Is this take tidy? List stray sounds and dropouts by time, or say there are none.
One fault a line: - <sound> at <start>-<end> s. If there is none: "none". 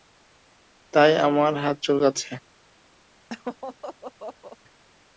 - laugh at 3.3-4.6 s